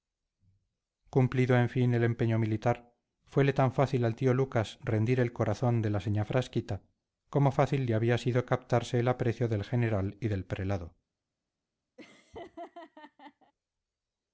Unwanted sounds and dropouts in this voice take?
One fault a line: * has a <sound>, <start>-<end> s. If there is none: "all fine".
* has a laugh, 12.0-13.5 s